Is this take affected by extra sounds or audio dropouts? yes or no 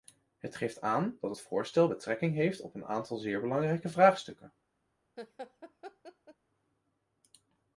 yes